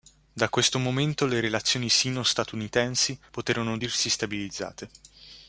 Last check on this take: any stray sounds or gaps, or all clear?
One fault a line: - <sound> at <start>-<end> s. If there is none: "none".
none